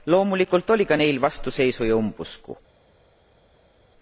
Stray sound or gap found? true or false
false